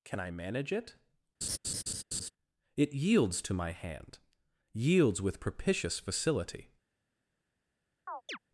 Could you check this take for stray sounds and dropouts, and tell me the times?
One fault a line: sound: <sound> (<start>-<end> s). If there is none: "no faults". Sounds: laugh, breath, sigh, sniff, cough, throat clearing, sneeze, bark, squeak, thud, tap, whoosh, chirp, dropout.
sound: laugh (1.4-2.3 s)
sound: chirp (8.1-8.4 s)